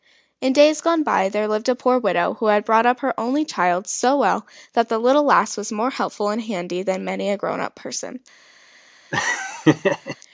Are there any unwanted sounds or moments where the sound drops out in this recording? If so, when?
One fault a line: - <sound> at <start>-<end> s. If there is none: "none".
- laugh at 9.1-10.2 s